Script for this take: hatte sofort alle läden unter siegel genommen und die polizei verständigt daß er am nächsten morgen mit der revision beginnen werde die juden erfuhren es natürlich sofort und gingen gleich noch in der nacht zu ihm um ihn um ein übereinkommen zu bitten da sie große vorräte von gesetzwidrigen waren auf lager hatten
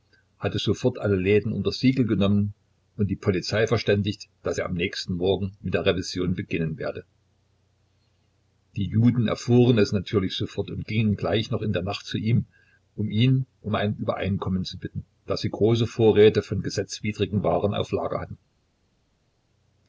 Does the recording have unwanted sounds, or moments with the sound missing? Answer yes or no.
no